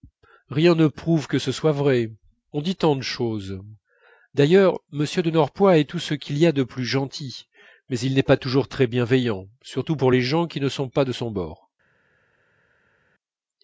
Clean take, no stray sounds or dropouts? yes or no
yes